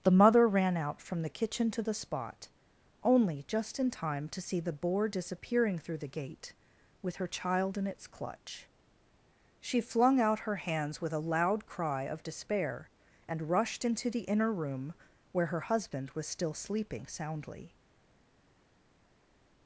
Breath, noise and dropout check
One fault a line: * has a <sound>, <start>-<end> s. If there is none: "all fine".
all fine